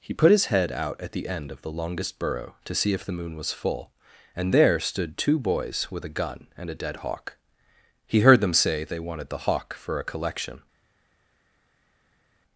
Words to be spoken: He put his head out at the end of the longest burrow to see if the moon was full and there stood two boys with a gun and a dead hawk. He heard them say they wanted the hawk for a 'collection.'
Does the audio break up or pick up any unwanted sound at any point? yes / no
no